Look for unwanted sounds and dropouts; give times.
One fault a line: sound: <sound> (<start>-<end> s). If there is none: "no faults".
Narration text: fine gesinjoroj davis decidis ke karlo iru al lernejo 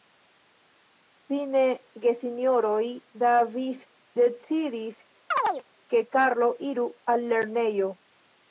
sound: chirp (5.3-5.6 s)